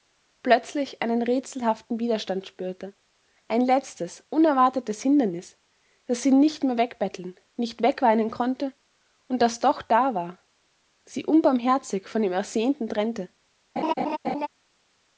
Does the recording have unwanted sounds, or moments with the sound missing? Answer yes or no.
yes